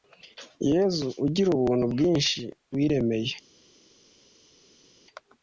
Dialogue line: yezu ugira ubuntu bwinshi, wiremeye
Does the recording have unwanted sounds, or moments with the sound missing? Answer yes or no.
no